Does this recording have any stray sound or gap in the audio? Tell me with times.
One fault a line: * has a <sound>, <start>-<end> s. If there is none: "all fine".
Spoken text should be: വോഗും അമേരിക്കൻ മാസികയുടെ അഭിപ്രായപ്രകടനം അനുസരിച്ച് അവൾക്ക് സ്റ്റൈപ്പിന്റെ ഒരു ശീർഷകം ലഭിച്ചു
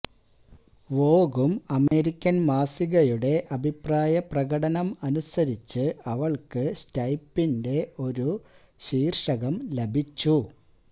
* has a dropout, 1.9-1.9 s